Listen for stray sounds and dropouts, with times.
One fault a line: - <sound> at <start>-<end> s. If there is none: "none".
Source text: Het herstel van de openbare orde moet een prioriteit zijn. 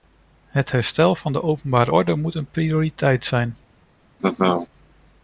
- laugh at 4.2-4.7 s